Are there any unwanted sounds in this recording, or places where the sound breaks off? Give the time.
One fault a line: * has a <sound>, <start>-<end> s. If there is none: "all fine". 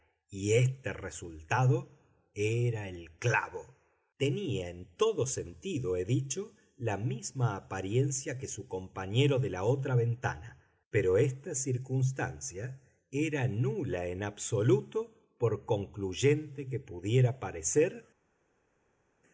all fine